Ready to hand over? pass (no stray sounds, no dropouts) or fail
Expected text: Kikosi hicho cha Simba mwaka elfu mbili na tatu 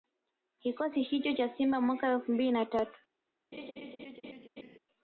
fail